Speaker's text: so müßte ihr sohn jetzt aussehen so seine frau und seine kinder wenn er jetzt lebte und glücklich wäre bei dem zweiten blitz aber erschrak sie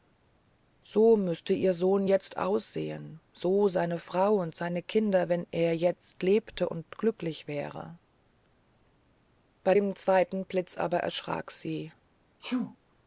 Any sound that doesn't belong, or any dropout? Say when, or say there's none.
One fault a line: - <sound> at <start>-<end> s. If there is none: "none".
- sneeze at 12.4-12.8 s